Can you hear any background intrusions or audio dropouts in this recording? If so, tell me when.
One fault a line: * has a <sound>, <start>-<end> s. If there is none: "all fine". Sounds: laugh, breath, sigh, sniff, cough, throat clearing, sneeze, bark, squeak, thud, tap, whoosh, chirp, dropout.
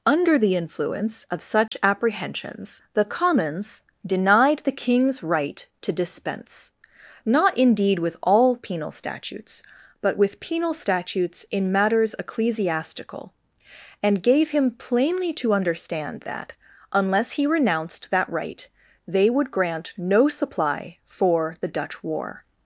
* has a dropout, 1.7-1.7 s